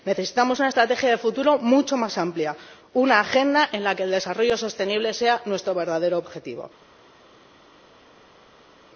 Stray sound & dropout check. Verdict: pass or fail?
pass